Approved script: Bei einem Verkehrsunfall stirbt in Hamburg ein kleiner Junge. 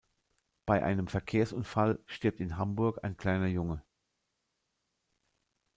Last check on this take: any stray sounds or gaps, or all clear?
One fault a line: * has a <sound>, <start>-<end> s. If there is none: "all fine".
all fine